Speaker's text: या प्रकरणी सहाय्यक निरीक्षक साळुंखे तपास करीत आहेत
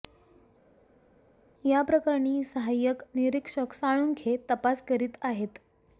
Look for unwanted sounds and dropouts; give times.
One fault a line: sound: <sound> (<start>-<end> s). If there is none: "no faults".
no faults